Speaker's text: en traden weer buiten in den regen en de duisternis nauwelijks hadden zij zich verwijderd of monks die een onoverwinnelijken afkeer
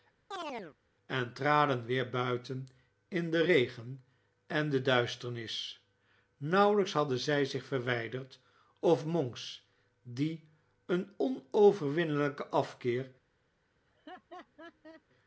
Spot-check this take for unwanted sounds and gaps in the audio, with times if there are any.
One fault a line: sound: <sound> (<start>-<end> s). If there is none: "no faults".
sound: chirp (0.3-0.8 s)
sound: laugh (13.9-15.0 s)